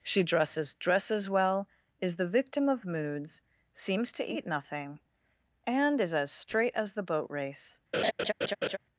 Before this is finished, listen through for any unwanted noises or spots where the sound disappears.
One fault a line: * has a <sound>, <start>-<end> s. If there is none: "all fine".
* has a laugh, 7.9-8.8 s